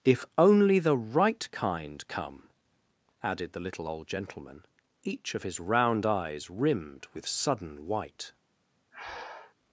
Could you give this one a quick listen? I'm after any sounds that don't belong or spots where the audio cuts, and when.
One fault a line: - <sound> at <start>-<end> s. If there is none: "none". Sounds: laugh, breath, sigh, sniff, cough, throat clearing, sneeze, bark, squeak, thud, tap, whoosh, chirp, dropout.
- breath at 8.9-9.5 s